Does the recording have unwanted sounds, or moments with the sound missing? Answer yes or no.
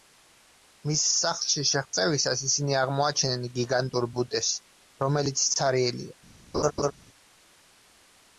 yes